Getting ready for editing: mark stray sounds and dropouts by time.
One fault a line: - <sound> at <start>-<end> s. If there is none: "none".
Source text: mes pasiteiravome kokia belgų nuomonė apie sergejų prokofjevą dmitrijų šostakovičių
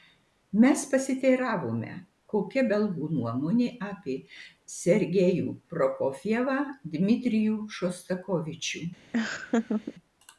- laugh at 9.1-10.0 s